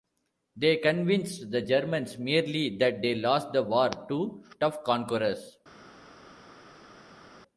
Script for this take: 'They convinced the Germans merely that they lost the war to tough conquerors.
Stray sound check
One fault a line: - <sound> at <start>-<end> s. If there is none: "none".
none